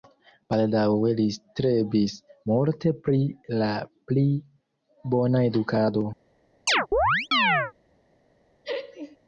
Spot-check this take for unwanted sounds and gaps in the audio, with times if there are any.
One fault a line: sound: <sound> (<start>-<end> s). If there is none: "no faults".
sound: chirp (6.7-7.7 s)
sound: laugh (8.6-9.2 s)